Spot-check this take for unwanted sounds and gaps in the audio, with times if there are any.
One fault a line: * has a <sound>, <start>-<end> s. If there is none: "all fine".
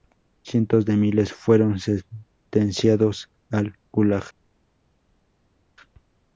all fine